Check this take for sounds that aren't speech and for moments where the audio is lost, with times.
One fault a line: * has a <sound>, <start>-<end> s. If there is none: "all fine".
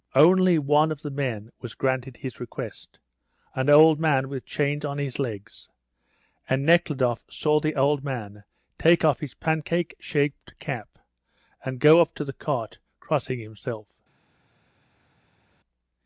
all fine